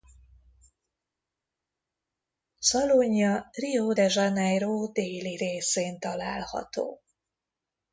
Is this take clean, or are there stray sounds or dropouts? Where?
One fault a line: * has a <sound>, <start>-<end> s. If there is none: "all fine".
all fine